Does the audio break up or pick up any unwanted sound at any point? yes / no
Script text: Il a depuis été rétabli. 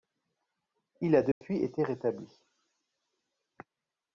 yes